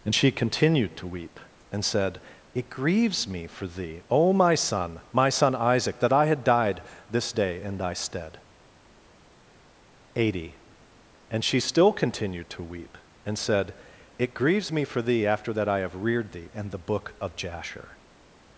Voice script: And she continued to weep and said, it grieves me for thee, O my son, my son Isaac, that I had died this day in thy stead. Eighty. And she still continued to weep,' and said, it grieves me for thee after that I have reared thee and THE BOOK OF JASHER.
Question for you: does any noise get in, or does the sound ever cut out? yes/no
no